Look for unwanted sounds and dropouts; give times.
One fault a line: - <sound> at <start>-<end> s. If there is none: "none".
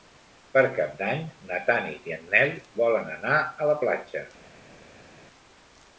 none